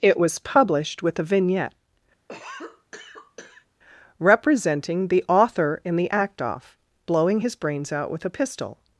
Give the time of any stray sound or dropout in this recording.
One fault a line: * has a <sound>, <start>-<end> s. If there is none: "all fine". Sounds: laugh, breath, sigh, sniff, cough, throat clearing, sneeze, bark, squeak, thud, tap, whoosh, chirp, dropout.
* has a cough, 2.3-3.7 s